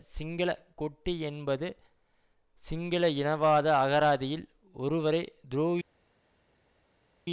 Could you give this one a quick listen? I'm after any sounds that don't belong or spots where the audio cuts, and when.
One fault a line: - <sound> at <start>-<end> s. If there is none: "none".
none